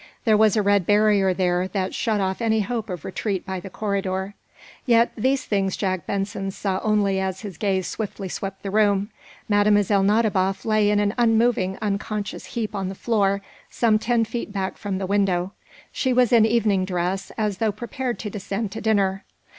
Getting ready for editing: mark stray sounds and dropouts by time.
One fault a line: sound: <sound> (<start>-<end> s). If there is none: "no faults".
no faults